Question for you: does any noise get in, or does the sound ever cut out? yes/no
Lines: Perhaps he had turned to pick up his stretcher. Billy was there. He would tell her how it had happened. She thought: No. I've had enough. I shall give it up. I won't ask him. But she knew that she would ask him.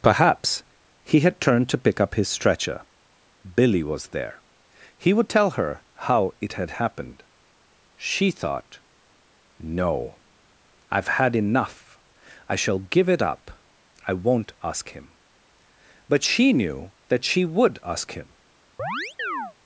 yes